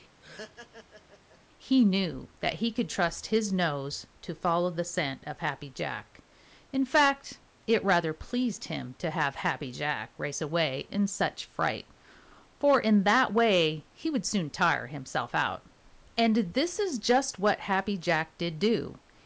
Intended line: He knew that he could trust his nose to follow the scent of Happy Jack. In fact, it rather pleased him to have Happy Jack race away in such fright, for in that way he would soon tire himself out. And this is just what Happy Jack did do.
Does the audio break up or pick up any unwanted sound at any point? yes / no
yes